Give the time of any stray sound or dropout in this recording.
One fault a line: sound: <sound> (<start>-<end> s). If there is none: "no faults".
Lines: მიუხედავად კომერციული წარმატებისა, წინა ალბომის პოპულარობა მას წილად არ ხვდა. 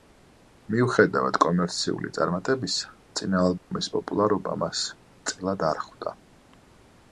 sound: dropout (3.6-3.7 s)